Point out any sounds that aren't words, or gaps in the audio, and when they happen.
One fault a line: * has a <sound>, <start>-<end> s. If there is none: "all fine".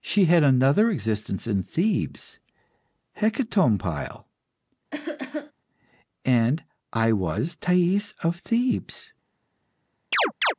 * has a cough, 4.9-5.5 s
* has a chirp, 10.1-10.5 s